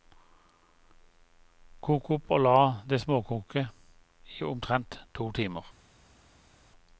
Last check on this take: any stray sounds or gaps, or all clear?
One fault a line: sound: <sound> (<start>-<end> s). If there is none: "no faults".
no faults